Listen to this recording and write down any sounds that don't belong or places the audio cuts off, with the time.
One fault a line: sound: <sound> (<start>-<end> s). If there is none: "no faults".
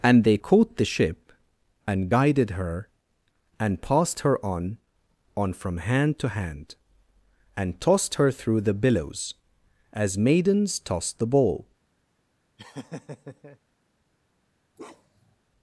sound: laugh (12.6-13.6 s)
sound: bark (14.8-15.4 s)